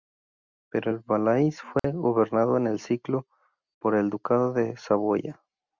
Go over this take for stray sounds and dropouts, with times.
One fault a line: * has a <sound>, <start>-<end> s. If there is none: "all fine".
* has a dropout, 1.8-1.8 s